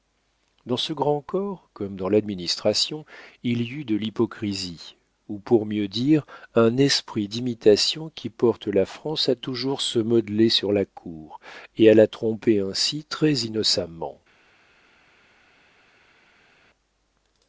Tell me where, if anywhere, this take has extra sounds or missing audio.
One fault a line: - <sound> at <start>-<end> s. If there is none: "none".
none